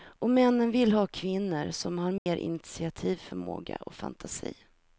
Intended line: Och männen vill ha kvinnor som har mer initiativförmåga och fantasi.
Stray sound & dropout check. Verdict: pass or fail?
fail